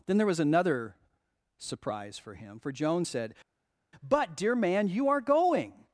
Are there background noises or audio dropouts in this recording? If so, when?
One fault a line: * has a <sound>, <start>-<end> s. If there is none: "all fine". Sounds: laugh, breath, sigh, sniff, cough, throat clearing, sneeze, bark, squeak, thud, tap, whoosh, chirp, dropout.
all fine